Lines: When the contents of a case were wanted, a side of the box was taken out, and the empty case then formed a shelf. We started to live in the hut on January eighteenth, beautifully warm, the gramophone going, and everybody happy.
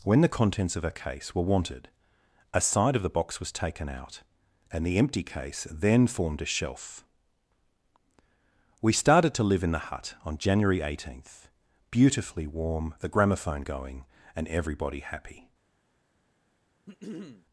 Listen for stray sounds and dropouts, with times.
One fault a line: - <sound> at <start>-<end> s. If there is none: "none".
- throat clearing at 16.9-17.5 s